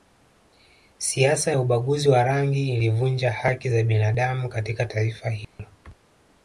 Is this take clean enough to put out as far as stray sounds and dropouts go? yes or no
no